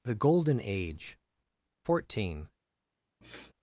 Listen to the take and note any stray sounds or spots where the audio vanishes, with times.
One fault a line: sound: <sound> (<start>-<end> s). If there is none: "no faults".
sound: sniff (3.2-3.5 s)